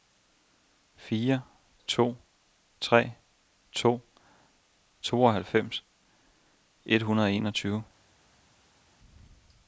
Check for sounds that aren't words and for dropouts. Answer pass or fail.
pass